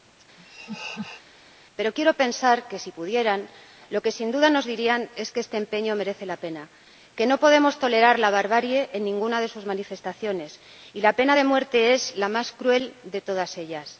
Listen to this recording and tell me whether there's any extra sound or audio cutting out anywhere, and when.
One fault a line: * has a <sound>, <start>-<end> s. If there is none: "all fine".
* has a laugh, 0.4-1.2 s